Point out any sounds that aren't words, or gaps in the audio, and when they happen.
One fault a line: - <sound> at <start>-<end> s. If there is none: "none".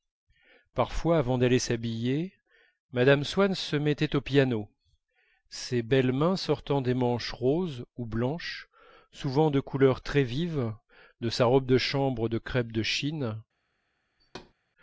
- thud at 14.2-14.5 s